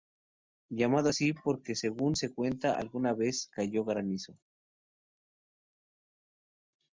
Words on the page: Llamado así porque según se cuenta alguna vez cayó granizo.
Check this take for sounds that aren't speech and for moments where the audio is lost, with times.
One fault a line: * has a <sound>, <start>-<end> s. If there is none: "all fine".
all fine